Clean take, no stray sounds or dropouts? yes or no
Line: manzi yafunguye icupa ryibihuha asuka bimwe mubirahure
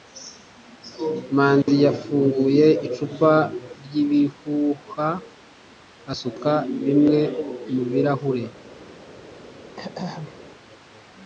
no